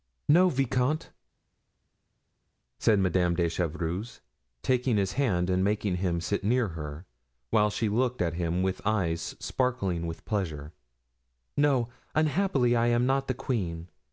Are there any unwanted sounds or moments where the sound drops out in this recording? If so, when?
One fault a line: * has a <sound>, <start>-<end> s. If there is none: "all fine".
all fine